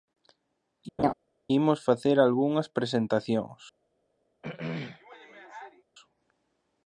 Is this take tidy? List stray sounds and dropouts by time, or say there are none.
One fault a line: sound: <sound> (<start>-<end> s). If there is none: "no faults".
sound: laugh (1.0-1.1 s)
sound: throat clearing (4.4-5.8 s)